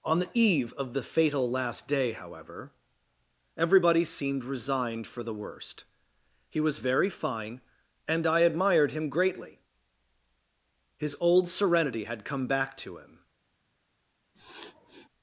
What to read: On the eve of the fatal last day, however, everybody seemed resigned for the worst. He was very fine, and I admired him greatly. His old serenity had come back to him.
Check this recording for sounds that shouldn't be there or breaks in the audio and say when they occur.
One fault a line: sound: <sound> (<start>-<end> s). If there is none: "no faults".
sound: sniff (14.3-15.1 s)